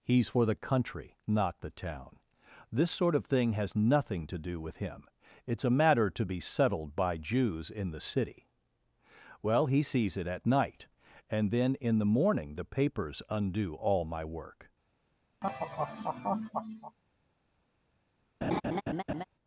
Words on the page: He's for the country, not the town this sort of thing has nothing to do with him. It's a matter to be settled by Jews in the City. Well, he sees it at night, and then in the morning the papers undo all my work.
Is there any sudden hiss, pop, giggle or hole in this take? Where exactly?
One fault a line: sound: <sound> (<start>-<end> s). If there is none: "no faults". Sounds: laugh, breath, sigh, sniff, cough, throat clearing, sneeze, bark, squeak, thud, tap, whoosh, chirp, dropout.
sound: laugh (15.4-17.0 s)
sound: laugh (18.4-19.2 s)